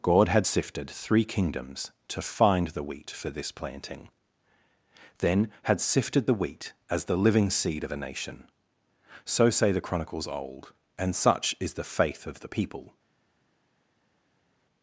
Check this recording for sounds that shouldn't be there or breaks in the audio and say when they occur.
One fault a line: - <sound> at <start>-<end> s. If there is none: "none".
none